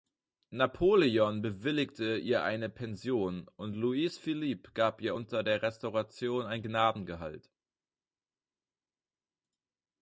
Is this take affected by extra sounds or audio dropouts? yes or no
no